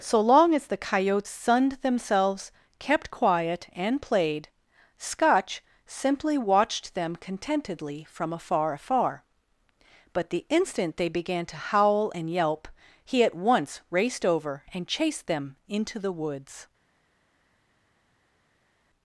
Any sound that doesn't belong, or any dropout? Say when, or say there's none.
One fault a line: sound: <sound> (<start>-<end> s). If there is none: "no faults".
no faults